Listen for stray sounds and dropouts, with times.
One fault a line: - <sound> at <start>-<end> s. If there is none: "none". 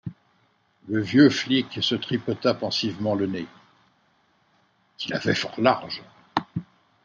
none